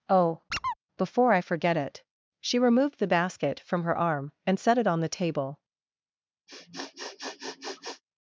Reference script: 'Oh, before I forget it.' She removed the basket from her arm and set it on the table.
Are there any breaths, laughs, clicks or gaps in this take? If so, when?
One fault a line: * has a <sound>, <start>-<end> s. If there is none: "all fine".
* has a squeak, 0.5-0.8 s
* has a sniff, 6.5-8.0 s